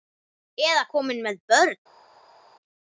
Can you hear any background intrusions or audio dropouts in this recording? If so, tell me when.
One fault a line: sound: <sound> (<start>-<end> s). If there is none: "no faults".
no faults